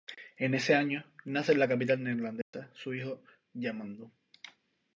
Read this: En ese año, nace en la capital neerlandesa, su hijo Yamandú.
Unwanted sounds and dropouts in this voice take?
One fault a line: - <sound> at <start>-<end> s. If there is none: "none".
- dropout at 2.4-2.5 s